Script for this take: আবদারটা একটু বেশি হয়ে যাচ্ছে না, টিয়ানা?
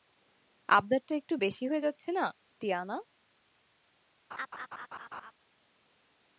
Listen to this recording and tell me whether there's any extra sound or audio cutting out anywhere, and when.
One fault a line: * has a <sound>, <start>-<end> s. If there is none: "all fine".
* has a laugh, 4.3-5.3 s